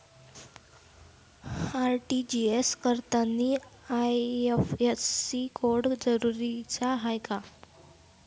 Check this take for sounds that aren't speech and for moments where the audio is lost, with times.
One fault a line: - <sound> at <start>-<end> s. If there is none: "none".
none